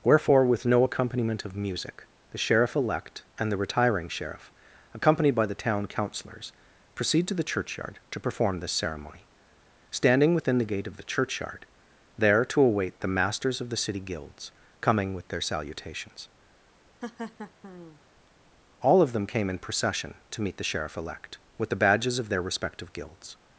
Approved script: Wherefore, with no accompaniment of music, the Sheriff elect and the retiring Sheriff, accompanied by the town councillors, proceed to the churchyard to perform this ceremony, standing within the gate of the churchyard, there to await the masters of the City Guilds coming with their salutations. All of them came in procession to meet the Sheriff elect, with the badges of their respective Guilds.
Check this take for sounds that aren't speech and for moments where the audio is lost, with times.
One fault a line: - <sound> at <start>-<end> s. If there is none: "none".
- laugh at 17.0-18.0 s